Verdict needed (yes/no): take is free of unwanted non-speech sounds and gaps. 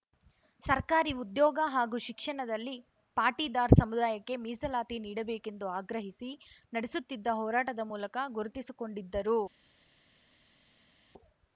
yes